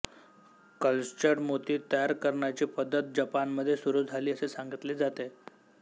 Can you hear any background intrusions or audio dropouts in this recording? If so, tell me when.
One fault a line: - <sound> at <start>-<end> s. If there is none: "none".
none